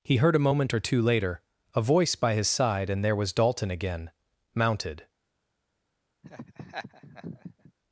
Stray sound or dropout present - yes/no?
yes